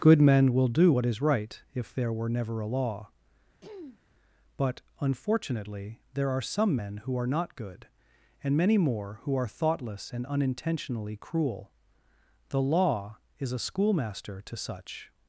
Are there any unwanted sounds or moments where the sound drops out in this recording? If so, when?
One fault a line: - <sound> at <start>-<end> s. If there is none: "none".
- throat clearing at 3.6-4.0 s